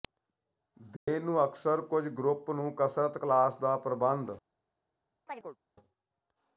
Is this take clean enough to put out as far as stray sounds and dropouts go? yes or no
no